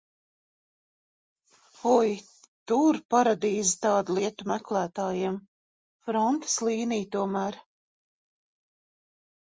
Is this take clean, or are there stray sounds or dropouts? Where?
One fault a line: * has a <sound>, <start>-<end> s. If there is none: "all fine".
all fine